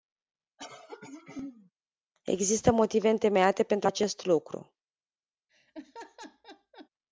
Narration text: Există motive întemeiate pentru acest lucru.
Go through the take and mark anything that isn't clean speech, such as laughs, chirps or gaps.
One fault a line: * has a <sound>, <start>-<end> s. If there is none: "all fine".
* has a throat clearing, 0.6-1.7 s
* has a laugh, 5.5-6.9 s